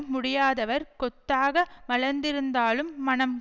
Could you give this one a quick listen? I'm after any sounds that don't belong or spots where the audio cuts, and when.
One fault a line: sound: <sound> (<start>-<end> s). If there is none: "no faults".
no faults